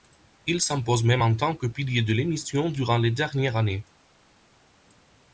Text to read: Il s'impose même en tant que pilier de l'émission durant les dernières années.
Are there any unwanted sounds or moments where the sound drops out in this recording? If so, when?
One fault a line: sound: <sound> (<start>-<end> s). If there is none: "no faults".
no faults